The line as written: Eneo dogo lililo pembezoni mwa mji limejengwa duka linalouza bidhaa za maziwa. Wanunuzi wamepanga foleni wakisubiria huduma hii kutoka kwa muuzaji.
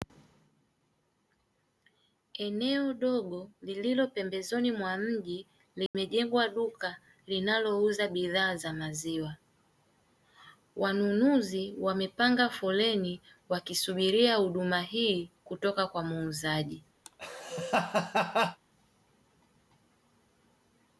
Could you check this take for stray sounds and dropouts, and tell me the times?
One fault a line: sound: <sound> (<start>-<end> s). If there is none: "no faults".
sound: dropout (5.9-5.9 s)
sound: laugh (17.0-18.6 s)